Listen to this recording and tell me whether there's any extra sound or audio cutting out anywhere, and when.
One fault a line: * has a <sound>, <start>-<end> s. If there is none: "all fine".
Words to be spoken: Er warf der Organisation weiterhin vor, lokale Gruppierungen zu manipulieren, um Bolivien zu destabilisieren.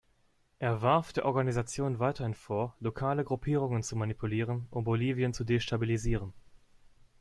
all fine